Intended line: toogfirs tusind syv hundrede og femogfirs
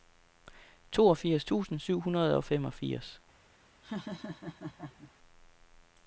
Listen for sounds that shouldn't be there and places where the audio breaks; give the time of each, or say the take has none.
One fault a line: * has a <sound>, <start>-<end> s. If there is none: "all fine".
* has a laugh, 3.8-5.1 s